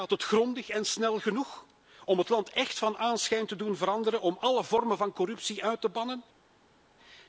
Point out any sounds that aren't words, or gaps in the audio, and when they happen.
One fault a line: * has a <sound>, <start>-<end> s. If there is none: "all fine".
all fine